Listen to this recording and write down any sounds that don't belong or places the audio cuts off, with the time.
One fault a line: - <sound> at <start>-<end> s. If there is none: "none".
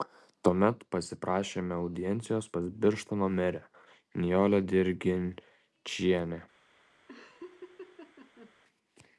- laugh at 7.1-8.5 s